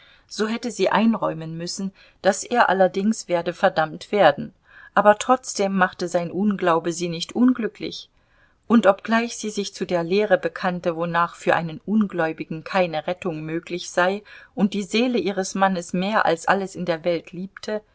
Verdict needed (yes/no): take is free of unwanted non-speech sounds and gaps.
yes